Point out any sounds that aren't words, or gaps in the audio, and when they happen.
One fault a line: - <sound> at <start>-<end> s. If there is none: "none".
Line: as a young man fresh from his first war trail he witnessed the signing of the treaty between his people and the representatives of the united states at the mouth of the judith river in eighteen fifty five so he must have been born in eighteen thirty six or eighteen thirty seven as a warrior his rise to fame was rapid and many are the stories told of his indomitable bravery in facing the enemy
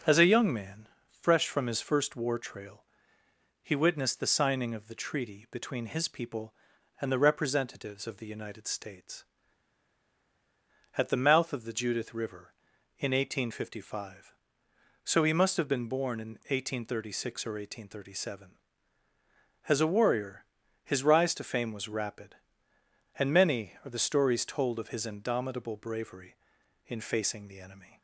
none